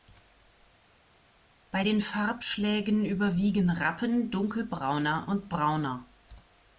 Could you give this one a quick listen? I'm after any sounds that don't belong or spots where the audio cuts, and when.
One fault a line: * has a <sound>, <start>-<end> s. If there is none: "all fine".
all fine